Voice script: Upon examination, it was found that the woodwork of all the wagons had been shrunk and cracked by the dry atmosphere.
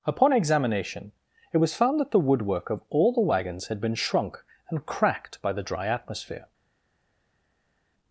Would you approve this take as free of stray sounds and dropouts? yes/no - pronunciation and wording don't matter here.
yes